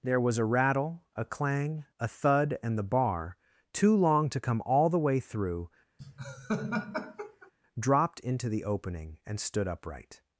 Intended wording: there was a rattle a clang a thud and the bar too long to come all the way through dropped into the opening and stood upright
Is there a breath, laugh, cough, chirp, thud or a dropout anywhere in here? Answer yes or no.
yes